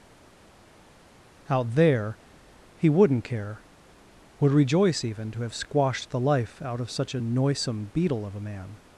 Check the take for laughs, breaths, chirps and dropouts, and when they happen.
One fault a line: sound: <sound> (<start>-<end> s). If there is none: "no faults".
no faults